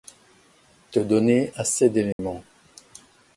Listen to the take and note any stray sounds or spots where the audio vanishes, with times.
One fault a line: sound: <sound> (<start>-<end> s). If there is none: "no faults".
sound: dropout (2.1-2.2 s)